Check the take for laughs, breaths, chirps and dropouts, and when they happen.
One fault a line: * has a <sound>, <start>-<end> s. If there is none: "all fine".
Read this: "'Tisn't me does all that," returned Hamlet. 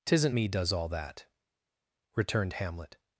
all fine